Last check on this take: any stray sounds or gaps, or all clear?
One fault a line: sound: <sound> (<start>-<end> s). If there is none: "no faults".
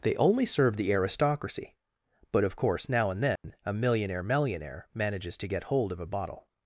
sound: dropout (3.4-3.4 s)